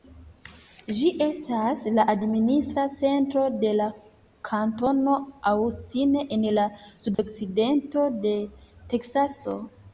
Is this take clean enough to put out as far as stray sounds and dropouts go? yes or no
no